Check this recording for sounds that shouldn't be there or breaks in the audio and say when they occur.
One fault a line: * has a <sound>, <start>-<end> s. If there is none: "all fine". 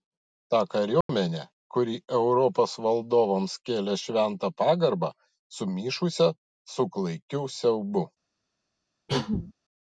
* has a dropout, 1.0-1.1 s
* has a cough, 9.1-9.5 s